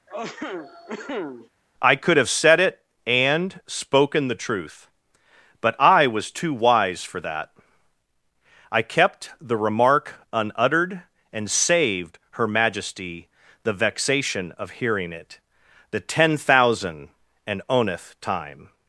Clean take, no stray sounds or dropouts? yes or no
no